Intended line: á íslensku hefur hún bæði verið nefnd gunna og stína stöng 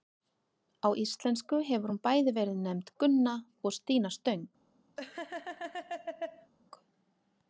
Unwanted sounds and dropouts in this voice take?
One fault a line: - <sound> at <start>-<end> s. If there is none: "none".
- laugh at 5.0-6.5 s